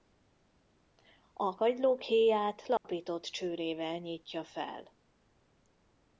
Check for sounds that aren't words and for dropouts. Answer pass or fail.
fail